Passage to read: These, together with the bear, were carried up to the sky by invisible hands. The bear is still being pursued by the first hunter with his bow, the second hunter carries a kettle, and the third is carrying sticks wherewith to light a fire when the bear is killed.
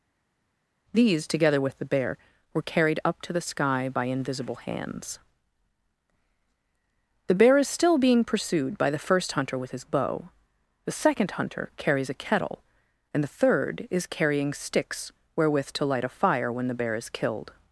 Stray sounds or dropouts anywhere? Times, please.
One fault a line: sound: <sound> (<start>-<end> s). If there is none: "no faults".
no faults